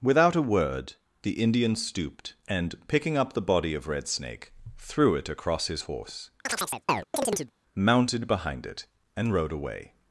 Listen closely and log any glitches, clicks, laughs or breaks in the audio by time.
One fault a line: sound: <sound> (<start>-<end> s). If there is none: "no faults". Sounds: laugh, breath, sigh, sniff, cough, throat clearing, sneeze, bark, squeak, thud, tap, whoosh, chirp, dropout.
sound: chirp (6.5-7.5 s)